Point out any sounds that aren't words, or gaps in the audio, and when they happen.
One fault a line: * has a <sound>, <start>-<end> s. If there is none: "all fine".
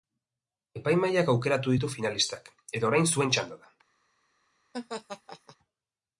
* has a laugh, 4.7-5.6 s